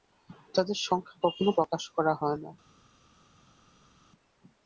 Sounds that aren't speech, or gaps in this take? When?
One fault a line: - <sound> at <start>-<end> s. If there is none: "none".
none